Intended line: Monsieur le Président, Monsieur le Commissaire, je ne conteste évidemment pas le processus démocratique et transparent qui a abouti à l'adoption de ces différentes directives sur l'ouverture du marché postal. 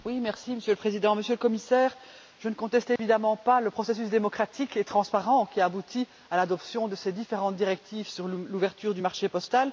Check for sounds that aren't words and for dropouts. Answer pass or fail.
fail